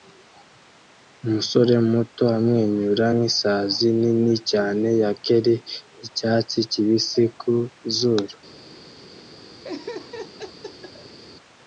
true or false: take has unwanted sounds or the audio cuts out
true